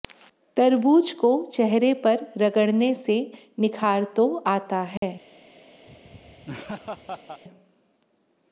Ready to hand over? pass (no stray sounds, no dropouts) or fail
fail